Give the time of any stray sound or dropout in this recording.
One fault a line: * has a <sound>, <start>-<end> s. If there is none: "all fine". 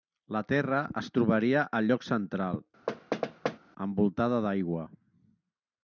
* has a thud, 2.9-3.6 s